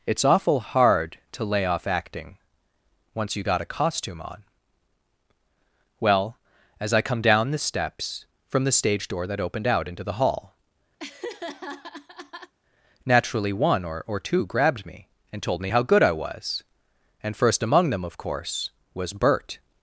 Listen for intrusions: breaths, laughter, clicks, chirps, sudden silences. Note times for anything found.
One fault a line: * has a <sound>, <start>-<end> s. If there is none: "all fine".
* has a laugh, 11.0-12.5 s